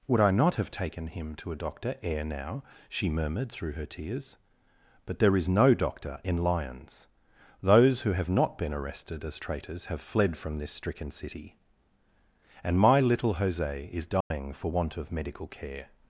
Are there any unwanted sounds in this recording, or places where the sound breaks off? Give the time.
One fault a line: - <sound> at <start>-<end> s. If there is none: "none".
- dropout at 14.2-14.3 s